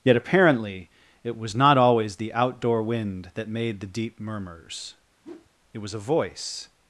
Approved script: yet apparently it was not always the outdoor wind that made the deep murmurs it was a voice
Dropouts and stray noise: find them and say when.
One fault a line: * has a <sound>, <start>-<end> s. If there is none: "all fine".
* has a whoosh, 5.2-5.5 s